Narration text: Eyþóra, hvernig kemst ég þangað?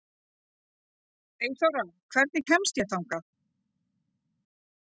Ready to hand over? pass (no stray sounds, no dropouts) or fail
pass